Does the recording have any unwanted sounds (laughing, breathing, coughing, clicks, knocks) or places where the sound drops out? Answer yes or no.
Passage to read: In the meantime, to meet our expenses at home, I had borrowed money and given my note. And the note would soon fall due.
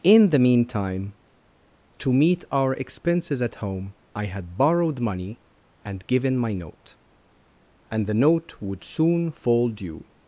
no